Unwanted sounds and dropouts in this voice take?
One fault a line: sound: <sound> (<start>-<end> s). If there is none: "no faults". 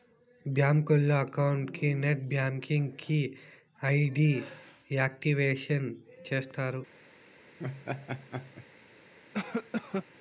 sound: laugh (7.6-8.7 s)
sound: cough (9.3-10.1 s)